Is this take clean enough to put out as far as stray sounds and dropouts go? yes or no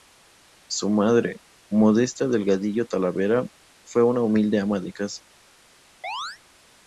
no